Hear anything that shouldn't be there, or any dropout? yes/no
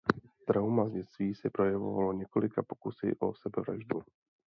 no